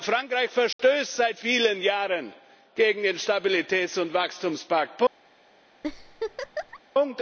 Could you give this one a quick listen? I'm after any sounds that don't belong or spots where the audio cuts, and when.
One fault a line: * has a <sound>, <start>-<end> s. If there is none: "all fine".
* has a dropout, 0.7-0.8 s
* has a laugh, 5.8-6.8 s